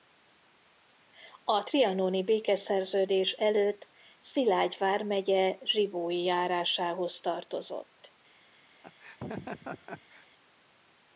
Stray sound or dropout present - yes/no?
yes